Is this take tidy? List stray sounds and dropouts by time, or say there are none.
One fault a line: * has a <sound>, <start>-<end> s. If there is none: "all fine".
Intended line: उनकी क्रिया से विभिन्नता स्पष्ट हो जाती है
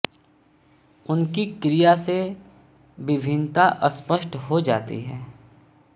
all fine